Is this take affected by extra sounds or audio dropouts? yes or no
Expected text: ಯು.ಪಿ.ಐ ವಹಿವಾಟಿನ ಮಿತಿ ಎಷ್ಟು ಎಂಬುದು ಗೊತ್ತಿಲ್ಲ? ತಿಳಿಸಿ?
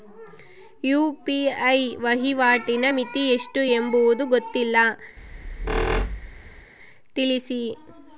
yes